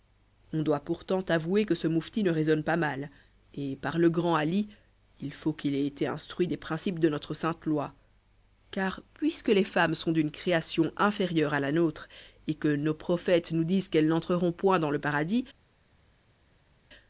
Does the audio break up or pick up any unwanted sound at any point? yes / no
no